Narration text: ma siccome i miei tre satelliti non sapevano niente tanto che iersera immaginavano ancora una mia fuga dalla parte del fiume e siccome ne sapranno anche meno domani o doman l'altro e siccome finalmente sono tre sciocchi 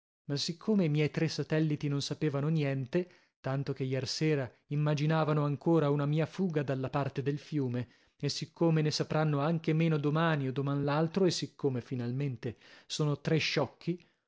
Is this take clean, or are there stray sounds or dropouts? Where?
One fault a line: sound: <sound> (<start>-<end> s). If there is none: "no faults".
no faults